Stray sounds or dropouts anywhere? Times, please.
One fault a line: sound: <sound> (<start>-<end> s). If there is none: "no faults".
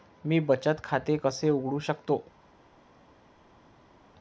no faults